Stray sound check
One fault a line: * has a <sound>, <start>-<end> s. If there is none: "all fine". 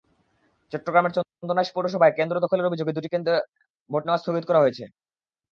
all fine